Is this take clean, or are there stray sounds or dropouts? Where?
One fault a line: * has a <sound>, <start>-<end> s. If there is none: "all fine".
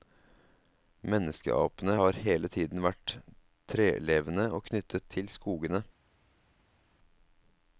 all fine